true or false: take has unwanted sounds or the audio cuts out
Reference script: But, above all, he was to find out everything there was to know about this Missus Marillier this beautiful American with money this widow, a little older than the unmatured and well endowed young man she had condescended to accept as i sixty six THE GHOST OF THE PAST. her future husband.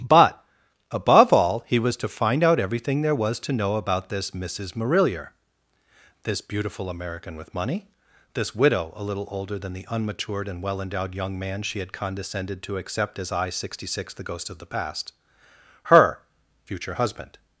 false